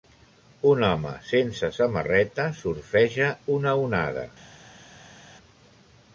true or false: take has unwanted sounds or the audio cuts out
false